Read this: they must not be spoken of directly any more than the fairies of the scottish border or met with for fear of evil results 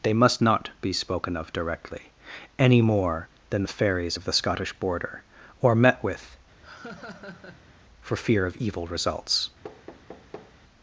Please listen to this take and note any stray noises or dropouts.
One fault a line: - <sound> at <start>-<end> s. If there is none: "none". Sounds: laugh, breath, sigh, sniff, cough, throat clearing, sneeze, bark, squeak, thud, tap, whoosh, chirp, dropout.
- laugh at 6.6-7.8 s
- thud at 9.6-10.5 s